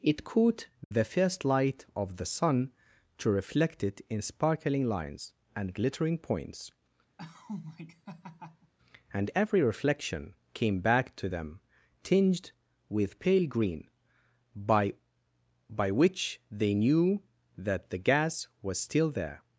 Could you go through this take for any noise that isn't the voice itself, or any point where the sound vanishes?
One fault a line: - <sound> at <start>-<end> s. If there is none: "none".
- dropout at 0.8-0.9 s
- laugh at 7.2-8.7 s